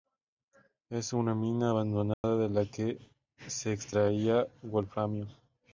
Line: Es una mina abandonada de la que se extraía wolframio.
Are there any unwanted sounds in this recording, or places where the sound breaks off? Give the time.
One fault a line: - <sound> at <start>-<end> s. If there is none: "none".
- dropout at 2.1-2.2 s